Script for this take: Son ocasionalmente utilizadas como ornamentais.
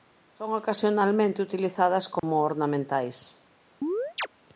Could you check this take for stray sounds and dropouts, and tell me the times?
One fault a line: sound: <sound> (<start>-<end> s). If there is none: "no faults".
sound: dropout (2.2-2.2 s)
sound: chirp (3.8-4.3 s)